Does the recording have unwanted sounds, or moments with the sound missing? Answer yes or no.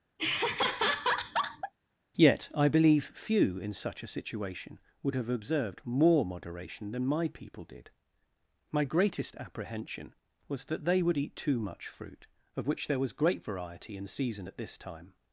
yes